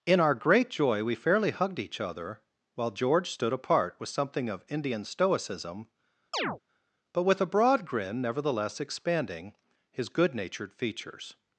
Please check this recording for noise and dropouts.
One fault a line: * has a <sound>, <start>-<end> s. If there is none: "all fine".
* has a chirp, 6.3-6.6 s